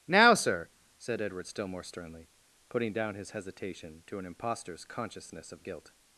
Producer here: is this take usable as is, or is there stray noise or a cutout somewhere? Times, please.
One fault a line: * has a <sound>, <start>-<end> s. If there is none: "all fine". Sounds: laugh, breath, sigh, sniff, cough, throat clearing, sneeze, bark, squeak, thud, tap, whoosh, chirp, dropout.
all fine